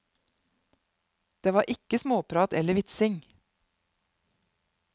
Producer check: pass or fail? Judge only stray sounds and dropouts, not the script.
pass